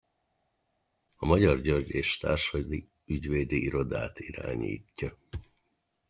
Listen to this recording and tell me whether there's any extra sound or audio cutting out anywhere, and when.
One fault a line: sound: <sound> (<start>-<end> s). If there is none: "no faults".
no faults